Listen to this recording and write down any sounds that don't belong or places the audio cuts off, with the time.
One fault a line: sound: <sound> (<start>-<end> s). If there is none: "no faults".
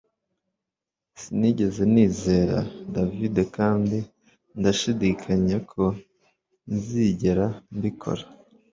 no faults